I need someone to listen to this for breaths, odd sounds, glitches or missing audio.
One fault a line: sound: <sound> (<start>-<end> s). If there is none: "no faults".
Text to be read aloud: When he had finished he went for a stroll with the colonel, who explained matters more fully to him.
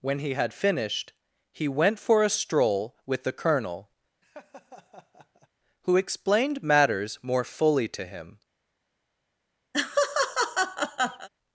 sound: laugh (4.2-5.5 s)
sound: laugh (9.7-11.3 s)